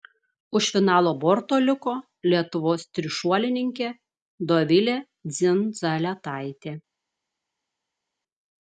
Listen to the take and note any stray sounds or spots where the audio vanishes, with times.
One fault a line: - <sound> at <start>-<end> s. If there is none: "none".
none